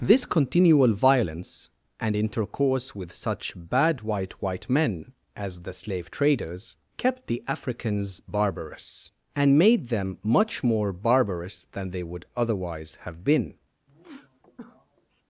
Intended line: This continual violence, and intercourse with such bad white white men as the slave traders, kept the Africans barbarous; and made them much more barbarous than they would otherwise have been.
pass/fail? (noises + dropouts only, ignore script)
fail